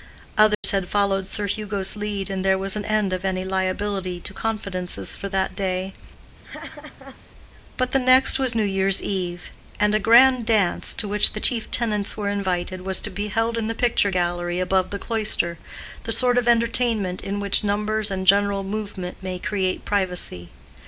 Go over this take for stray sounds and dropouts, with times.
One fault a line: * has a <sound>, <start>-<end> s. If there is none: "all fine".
* has a dropout, 0.5-0.6 s
* has a laugh, 6.4-7.2 s